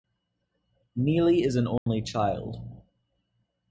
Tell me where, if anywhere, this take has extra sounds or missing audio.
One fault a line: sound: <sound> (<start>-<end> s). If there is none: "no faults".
sound: dropout (1.8-1.9 s)